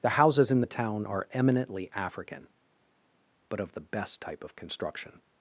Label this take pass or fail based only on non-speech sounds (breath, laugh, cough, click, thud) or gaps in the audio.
pass